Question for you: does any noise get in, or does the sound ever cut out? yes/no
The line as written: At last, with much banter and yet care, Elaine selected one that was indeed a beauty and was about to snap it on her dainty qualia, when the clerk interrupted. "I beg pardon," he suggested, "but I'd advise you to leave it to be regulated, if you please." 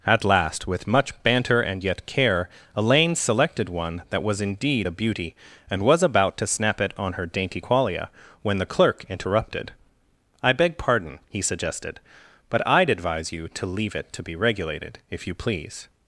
no